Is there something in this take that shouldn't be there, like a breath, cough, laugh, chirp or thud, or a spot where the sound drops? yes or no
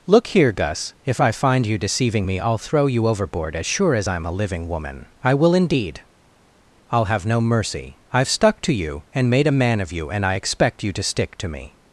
no